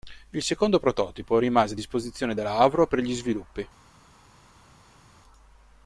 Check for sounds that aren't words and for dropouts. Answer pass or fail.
pass